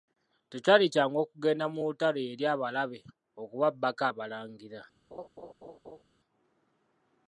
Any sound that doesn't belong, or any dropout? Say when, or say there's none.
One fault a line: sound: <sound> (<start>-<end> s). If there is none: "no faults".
sound: laugh (5.1-6.0 s)